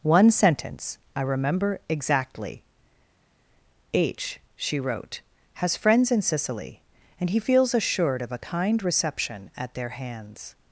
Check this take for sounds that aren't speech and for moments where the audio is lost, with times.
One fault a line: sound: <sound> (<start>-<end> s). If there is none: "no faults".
no faults